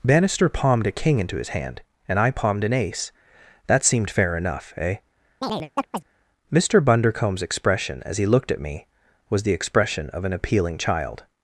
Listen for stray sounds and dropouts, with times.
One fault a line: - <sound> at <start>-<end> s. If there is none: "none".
- chirp at 5.4-6.0 s